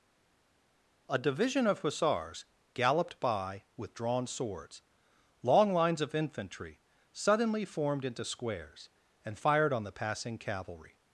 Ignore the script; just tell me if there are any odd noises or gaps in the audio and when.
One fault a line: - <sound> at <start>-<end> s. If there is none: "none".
none